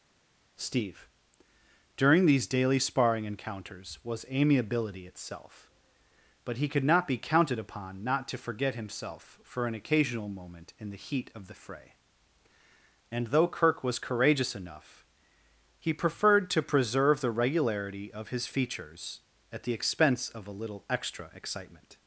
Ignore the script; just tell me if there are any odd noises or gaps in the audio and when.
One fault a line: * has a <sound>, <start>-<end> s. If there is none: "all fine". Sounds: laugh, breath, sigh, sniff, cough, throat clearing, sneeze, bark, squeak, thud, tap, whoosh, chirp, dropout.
all fine